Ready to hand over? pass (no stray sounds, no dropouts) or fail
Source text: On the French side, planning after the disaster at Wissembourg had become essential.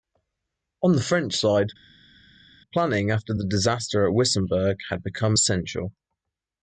pass